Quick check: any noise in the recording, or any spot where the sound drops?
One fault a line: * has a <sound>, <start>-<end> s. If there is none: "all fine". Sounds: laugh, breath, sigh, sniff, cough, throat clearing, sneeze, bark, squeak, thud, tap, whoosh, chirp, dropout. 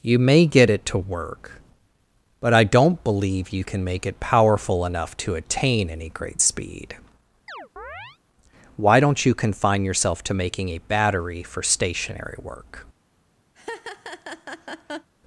* has a chirp, 7.5-8.2 s
* has a laugh, 13.5-15.1 s